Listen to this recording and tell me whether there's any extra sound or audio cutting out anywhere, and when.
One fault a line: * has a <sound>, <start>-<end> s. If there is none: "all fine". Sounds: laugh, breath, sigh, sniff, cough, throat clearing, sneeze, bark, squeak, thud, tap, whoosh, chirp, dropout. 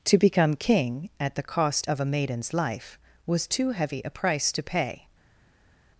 all fine